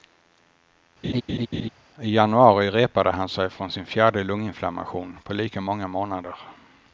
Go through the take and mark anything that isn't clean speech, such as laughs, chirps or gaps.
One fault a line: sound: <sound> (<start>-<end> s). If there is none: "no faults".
sound: laugh (1.0-1.7 s)